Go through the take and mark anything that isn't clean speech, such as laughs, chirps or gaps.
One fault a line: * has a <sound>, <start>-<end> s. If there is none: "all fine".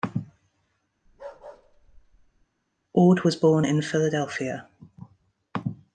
* has a bark, 1.1-2.5 s